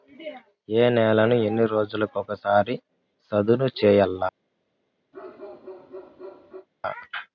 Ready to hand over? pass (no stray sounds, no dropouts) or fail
fail